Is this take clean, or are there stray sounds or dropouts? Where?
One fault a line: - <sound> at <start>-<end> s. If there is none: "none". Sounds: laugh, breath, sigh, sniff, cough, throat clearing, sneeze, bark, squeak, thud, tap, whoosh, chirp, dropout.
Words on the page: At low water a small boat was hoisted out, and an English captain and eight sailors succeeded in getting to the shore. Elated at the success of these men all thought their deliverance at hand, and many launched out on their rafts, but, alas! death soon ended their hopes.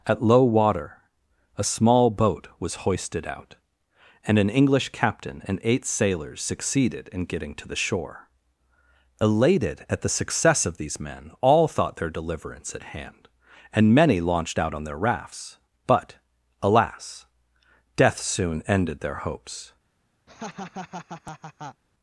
- laugh at 20.3-21.8 s